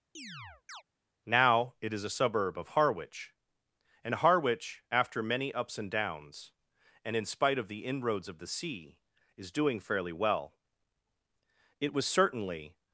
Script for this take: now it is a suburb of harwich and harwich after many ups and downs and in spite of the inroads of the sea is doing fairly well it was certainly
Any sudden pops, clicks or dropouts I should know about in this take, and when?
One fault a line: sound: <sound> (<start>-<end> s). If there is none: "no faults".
sound: chirp (0.1-0.8 s)